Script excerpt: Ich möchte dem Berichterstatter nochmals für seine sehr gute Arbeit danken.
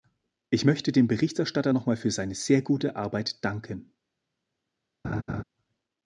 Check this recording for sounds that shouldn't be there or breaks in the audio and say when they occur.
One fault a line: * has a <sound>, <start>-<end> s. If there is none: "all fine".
* has a laugh, 5.0-5.4 s